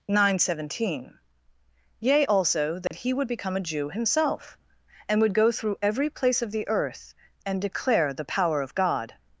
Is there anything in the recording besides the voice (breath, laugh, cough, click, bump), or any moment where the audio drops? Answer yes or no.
yes